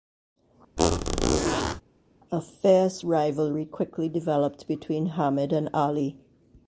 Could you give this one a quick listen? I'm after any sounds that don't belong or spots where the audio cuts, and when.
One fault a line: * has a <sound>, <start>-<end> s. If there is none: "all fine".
* has a squeak, 0.8-1.8 s